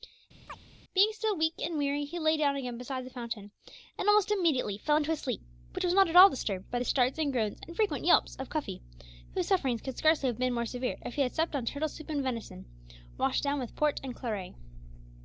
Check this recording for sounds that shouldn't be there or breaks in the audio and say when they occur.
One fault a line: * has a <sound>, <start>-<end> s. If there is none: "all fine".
* has a chirp, 0.5-0.6 s